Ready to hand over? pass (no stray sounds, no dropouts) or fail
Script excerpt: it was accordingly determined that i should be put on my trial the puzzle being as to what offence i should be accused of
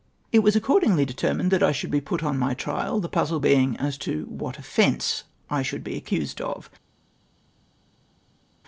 pass